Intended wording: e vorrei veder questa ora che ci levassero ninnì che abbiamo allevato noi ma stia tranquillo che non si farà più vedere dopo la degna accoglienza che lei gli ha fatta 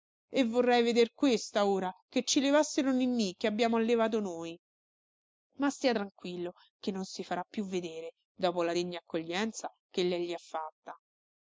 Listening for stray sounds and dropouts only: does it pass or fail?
pass